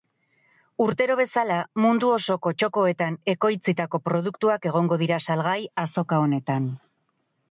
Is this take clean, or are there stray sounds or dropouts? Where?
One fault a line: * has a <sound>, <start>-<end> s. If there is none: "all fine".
all fine